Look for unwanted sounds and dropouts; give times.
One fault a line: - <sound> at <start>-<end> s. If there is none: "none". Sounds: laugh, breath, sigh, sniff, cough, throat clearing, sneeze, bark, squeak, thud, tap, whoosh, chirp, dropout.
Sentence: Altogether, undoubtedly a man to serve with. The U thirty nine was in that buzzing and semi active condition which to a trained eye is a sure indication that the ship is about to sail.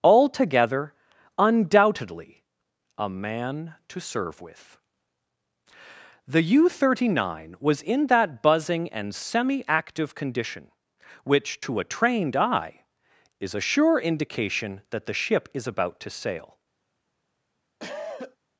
- cough at 17.8-18.4 s